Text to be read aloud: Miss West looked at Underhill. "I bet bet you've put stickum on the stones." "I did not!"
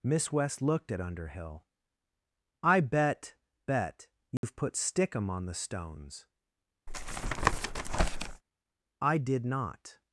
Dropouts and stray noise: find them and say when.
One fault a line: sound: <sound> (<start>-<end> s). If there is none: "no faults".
sound: dropout (4.4-4.4 s)
sound: tap (6.9-8.4 s)